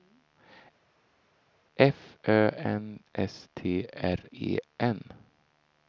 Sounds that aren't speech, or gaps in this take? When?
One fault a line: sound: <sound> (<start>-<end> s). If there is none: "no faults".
no faults